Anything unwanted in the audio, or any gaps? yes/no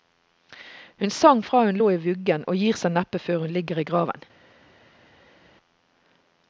no